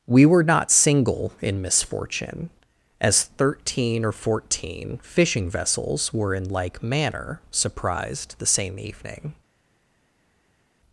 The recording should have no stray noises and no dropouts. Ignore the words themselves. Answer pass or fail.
pass